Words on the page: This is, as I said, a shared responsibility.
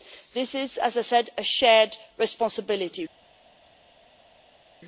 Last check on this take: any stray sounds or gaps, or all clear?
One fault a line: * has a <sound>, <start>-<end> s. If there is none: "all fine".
all fine